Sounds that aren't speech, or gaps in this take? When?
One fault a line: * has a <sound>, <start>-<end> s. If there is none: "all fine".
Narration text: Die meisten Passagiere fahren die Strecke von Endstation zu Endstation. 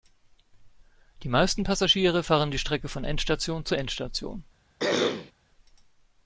* has a throat clearing, 4.8-5.3 s